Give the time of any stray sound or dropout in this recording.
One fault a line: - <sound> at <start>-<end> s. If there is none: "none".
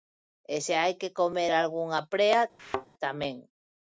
- thud at 2.6-2.9 s